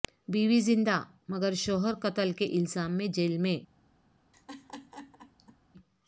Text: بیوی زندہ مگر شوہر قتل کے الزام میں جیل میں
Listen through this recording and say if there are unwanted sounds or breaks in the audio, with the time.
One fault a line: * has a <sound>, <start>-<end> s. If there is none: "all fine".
* has a laugh, 4.3-5.6 s